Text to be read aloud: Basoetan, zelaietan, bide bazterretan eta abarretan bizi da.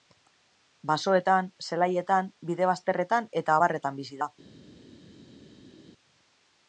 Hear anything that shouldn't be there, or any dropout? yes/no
no